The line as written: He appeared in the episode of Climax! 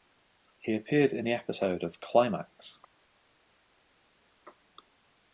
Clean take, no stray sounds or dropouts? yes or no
yes